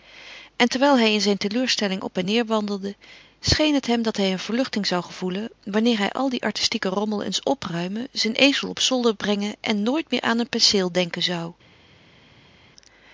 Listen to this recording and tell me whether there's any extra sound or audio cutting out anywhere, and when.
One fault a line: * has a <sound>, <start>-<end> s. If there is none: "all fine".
all fine